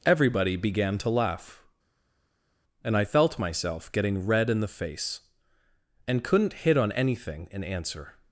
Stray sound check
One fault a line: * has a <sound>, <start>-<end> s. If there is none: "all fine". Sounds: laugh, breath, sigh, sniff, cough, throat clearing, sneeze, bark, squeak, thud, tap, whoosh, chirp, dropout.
all fine